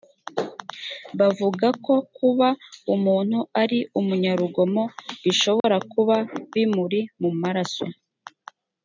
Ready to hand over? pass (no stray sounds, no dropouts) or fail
fail